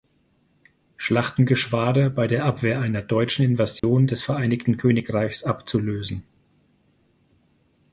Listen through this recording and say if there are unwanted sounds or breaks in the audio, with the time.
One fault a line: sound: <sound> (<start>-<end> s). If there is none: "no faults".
sound: dropout (3.8-3.8 s)